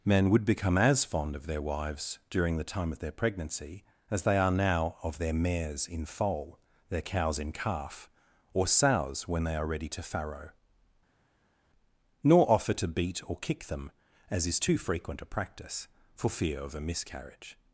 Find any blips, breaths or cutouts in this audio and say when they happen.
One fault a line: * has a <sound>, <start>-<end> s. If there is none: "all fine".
all fine